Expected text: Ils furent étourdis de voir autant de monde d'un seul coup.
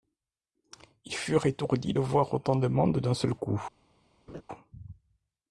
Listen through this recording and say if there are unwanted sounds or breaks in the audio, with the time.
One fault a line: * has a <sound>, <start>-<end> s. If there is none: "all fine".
* has a laugh, 4.3-4.4 s